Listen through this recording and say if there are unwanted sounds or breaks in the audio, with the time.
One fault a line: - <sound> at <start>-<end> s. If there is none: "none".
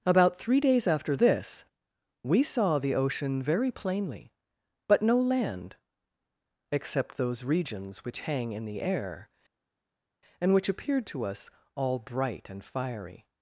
none